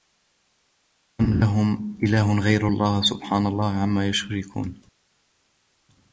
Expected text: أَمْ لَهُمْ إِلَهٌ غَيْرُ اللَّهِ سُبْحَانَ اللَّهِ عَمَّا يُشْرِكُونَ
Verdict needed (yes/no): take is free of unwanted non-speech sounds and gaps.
yes